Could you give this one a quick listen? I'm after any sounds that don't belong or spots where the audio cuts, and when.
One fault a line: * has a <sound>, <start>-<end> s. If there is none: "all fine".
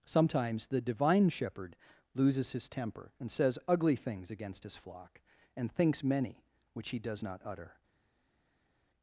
all fine